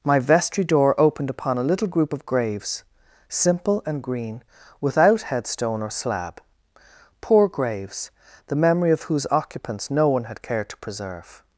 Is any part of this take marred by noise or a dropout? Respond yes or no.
no